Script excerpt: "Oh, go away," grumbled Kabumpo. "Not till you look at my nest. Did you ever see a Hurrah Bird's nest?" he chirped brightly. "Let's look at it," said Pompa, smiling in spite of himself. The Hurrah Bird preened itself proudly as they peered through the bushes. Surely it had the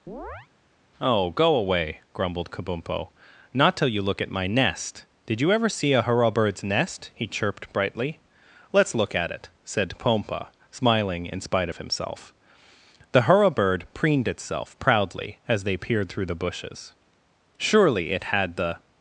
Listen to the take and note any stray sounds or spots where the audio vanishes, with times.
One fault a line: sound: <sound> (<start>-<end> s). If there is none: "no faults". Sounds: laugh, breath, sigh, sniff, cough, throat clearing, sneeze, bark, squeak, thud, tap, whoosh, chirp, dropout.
sound: chirp (0.1-0.5 s)